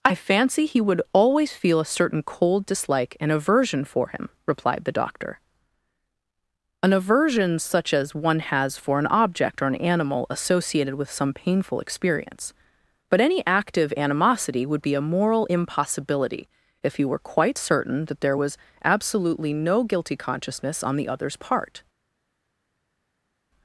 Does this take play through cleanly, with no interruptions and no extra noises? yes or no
yes